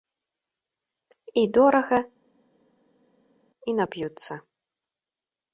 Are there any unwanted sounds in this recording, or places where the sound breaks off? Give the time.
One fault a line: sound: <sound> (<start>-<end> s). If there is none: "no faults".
no faults